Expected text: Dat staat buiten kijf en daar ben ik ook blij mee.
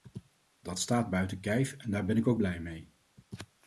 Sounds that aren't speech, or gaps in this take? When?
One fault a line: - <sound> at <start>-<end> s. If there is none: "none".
none